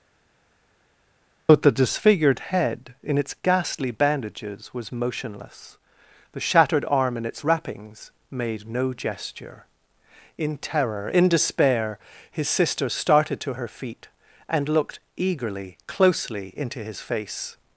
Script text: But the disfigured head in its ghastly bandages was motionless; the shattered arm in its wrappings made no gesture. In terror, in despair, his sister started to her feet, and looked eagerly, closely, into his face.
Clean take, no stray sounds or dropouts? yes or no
yes